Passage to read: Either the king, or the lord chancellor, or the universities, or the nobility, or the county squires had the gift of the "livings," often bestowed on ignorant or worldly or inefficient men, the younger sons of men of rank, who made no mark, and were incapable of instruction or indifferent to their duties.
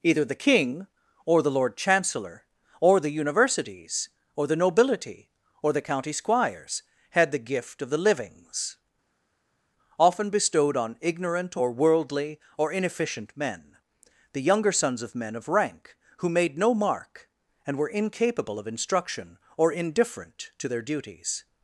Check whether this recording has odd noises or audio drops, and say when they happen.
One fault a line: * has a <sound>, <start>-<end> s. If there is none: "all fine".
all fine